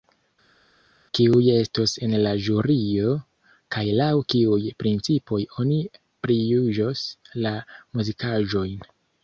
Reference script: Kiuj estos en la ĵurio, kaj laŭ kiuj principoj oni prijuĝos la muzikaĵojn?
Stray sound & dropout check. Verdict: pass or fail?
pass